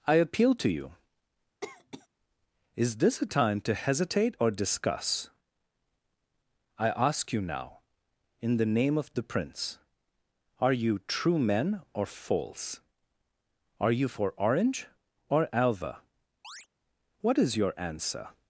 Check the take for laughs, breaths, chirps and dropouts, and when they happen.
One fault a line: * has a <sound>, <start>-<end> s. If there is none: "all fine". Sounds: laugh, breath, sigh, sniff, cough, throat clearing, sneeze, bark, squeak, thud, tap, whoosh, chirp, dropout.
* has a cough, 1.6-2.1 s
* has a chirp, 16.4-16.7 s